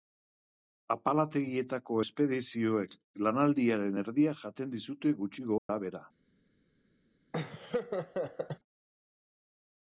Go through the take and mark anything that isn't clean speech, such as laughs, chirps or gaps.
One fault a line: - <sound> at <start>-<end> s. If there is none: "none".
- dropout at 5.6-5.7 s
- laugh at 7.3-8.6 s